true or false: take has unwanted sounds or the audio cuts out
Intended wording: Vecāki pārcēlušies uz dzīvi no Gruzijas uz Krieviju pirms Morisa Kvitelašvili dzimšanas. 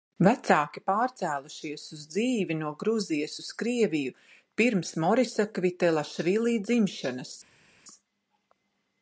false